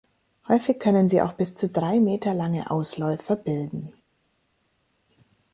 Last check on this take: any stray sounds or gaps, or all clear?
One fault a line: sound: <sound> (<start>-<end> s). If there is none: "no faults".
no faults